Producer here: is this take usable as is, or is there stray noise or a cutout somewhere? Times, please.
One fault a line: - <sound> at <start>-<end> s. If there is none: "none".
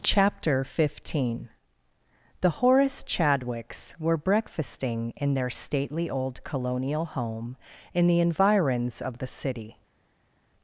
none